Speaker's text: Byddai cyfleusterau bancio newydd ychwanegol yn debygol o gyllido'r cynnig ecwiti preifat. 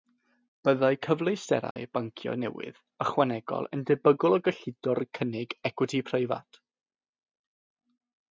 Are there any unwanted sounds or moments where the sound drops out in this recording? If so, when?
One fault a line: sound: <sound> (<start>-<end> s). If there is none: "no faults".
sound: dropout (1.7-1.8 s)